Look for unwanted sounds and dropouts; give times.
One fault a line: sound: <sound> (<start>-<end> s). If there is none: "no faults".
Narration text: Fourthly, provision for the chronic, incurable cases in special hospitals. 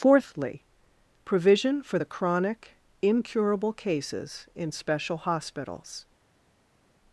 no faults